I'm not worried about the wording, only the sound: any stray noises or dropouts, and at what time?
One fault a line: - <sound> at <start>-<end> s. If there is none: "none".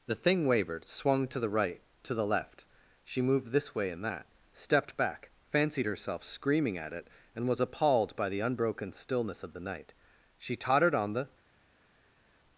none